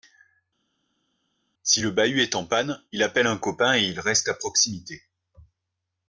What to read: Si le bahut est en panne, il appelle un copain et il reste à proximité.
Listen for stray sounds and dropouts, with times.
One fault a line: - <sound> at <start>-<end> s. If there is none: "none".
none